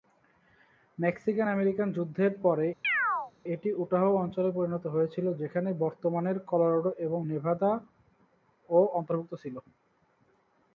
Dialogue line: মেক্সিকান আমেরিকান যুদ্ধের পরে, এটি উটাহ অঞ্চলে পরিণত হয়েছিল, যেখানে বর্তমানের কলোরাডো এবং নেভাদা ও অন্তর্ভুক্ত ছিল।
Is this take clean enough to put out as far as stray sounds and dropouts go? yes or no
no